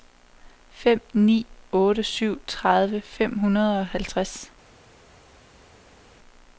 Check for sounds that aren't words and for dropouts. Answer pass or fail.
pass